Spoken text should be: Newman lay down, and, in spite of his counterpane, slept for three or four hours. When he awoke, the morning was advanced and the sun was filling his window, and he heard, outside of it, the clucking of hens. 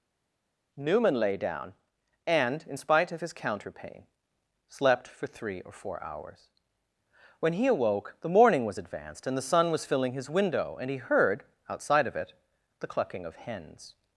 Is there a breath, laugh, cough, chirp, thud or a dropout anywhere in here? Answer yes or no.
no